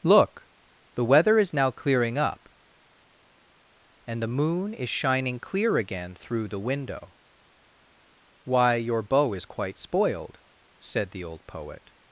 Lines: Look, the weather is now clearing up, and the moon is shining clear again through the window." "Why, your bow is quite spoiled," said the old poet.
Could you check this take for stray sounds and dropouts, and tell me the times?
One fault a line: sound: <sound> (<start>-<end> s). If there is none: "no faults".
no faults